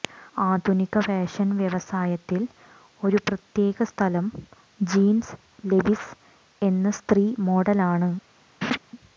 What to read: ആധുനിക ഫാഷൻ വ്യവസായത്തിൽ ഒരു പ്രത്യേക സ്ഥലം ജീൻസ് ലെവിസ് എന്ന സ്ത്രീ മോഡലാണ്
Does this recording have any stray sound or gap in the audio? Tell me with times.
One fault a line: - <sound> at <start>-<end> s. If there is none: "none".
- laugh at 8.6-8.8 s